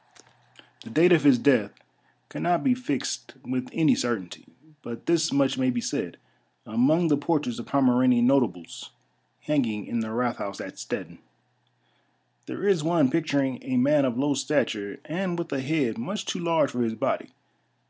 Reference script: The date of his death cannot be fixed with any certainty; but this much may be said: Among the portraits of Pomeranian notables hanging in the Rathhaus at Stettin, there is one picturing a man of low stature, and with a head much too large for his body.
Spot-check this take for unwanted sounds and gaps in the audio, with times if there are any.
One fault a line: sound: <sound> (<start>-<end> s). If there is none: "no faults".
no faults